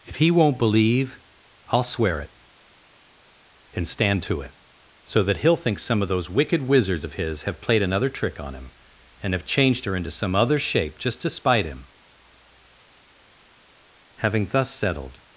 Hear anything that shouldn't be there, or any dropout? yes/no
no